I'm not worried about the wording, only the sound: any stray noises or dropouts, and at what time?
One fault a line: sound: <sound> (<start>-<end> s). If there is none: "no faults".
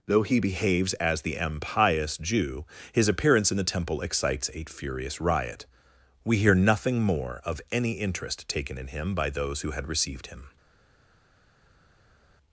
no faults